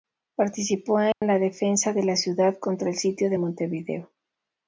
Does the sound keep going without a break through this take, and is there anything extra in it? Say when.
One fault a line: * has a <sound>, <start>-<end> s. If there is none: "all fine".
* has a dropout, 1.1-1.2 s